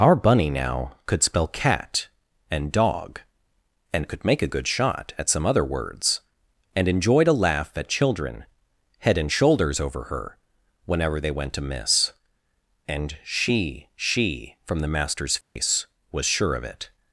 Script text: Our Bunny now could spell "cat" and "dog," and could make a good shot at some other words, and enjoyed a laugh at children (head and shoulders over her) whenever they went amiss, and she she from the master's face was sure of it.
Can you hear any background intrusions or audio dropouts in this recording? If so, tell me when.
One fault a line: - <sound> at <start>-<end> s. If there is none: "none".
- dropout at 15.4-15.6 s